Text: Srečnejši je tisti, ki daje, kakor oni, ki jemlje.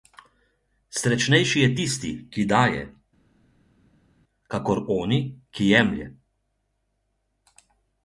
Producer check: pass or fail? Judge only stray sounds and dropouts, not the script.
pass